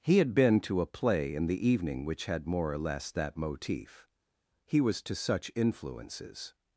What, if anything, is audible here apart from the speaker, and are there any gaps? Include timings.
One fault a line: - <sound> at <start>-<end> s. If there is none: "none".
none